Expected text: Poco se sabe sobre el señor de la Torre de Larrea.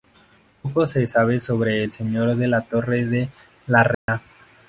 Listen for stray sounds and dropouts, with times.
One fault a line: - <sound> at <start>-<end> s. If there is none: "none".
- dropout at 3.9-4.1 s